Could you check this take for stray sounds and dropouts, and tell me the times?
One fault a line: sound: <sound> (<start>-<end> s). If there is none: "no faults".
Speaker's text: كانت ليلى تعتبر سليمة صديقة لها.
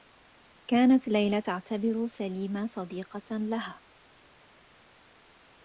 no faults